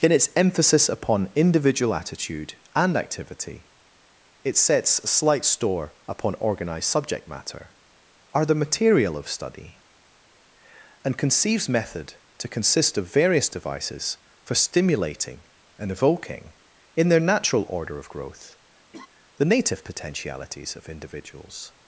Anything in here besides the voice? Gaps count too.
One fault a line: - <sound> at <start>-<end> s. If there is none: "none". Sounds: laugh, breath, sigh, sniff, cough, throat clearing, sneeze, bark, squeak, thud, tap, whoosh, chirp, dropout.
- laugh at 18.9-19.1 s